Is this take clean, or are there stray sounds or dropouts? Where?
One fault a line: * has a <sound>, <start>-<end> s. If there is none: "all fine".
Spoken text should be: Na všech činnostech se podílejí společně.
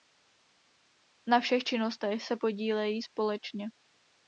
all fine